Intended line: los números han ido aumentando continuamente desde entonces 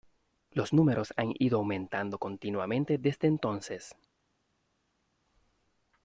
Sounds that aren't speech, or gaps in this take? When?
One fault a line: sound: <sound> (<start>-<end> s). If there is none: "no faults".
no faults